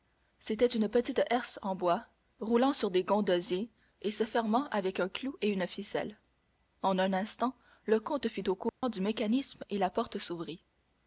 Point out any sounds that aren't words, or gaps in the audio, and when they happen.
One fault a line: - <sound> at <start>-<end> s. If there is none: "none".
- dropout at 8.7-8.8 s